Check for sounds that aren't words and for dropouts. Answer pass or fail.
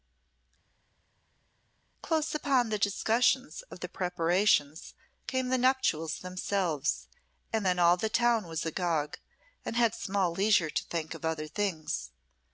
pass